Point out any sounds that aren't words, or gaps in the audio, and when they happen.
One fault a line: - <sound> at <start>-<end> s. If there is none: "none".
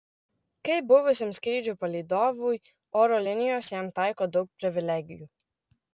none